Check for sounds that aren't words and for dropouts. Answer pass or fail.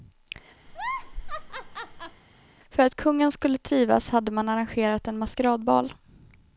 fail